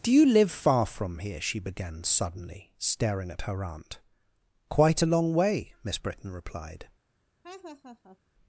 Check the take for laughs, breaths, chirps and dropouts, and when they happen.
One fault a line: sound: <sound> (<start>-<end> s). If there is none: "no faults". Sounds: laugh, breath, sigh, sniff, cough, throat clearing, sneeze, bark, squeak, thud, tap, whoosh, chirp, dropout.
sound: laugh (7.4-8.2 s)